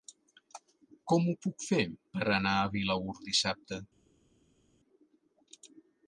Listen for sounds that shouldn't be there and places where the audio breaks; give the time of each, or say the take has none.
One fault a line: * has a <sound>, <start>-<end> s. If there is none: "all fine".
all fine